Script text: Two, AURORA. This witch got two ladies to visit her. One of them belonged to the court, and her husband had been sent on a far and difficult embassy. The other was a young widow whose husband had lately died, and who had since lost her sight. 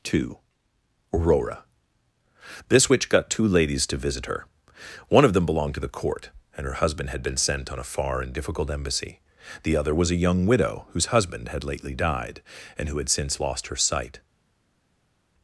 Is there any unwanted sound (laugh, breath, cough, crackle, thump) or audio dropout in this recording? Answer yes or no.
no